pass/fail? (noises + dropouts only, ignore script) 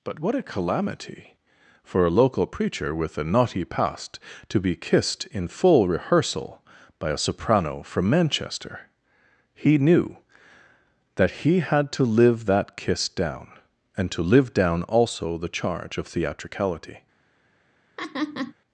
fail